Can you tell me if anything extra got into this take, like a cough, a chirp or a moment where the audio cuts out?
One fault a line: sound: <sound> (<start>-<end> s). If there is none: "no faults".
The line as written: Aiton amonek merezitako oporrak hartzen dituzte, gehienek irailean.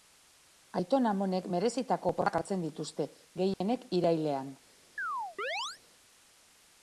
sound: dropout (3.5-3.6 s)
sound: chirp (5.0-5.8 s)